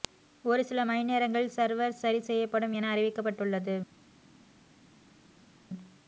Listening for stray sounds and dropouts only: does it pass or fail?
pass